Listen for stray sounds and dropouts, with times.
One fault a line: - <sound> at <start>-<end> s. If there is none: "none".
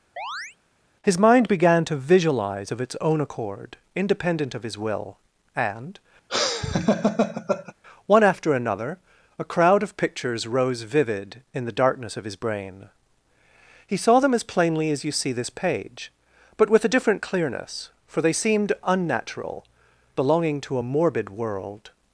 - chirp at 0.2-0.6 s
- laugh at 6.3-7.7 s